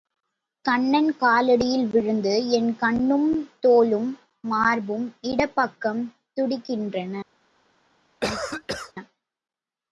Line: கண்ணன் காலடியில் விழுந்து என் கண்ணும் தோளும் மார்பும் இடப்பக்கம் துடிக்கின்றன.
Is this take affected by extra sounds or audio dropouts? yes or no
yes